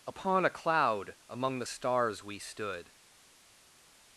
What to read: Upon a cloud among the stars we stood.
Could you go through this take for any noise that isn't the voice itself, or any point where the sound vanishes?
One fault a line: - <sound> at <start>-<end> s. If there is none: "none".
none